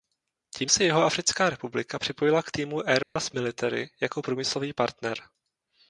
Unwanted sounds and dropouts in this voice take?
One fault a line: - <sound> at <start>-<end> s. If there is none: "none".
- dropout at 3.0-3.2 s